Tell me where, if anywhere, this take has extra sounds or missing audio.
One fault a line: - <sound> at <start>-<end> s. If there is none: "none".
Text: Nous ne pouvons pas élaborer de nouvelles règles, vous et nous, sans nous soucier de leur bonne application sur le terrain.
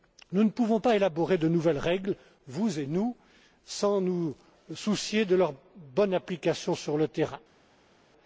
none